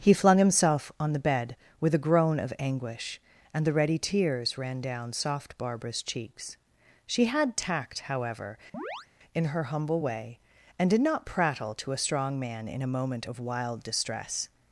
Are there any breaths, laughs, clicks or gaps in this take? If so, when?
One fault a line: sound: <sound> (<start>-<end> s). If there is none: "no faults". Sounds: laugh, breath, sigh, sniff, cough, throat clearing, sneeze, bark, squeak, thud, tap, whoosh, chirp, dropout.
sound: chirp (8.7-9.1 s)